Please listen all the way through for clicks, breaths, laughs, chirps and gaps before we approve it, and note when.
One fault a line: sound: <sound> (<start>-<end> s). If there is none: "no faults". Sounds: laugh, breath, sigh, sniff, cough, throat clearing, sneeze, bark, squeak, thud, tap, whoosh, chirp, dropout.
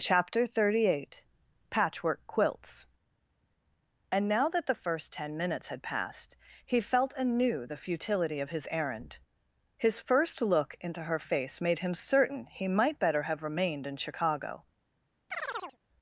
sound: chirp (15.3-15.8 s)